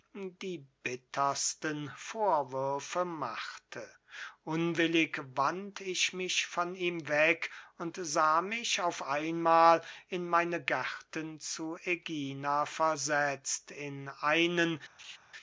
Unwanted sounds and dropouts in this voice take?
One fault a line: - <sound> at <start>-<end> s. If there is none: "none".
- laugh at 15.0-15.2 s